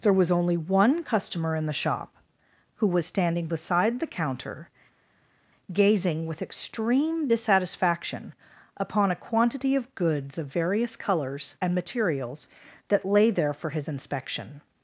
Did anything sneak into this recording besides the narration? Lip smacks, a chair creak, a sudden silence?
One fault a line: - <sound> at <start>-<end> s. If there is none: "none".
none